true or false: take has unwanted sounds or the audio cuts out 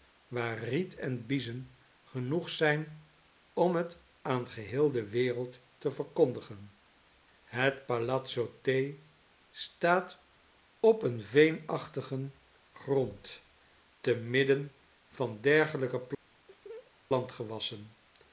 true